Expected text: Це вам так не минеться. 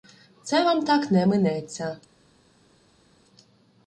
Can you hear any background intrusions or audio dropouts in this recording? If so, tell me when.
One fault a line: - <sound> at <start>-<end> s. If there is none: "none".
none